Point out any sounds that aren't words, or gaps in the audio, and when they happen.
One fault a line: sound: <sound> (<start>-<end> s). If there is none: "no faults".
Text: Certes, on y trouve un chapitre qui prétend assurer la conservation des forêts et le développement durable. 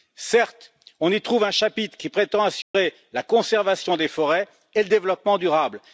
sound: dropout (2.6-2.7 s)